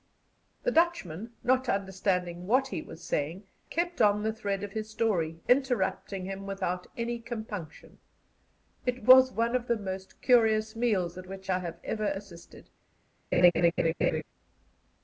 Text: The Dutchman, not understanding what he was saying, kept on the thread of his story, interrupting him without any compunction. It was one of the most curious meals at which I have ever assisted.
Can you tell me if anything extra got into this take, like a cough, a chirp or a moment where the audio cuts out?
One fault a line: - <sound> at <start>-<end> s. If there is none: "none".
- laugh at 13.3-14.2 s